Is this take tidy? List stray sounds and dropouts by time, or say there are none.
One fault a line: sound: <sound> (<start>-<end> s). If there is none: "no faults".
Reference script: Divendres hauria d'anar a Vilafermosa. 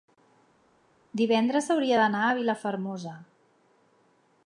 no faults